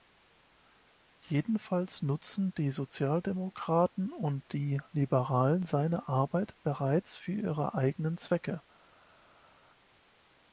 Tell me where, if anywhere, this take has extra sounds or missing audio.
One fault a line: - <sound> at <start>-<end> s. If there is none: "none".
none